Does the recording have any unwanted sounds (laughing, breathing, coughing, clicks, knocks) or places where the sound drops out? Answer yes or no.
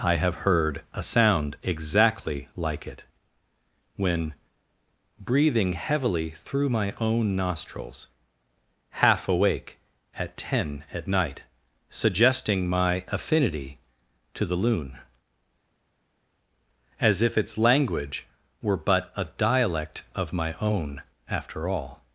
no